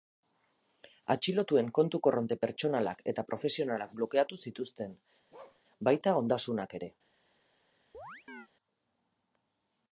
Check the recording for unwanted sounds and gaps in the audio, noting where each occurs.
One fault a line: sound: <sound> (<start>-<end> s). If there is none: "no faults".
sound: bark (5.3-5.6 s)
sound: chirp (7.9-8.5 s)